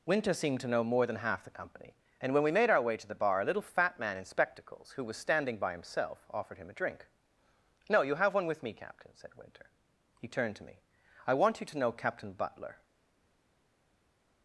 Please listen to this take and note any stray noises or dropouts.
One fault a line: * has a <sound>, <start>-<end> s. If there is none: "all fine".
all fine